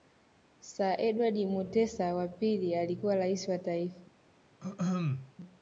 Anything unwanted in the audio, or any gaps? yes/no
yes